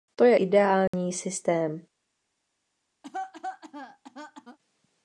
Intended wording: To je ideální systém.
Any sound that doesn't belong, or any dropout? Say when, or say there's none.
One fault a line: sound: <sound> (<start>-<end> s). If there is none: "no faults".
sound: dropout (0.9-0.9 s)
sound: cough (3.0-4.6 s)